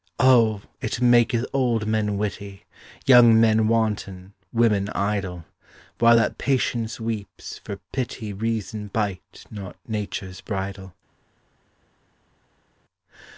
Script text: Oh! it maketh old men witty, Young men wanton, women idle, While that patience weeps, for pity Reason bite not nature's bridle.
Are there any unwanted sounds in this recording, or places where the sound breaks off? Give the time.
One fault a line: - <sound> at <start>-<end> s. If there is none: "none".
none